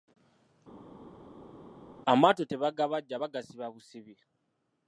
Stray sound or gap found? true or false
false